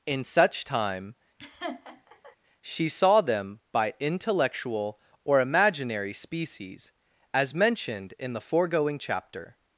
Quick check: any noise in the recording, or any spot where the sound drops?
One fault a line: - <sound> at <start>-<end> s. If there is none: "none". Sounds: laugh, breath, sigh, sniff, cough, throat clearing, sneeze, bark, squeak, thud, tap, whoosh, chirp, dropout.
- laugh at 1.4-2.4 s